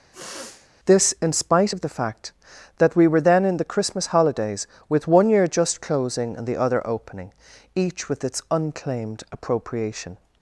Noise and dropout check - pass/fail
fail